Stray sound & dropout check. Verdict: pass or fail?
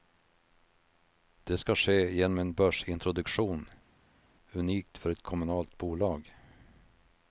pass